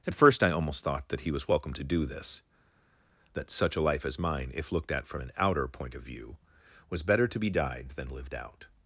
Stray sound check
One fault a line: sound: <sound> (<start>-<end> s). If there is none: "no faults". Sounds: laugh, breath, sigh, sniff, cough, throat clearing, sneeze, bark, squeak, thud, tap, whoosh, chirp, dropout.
no faults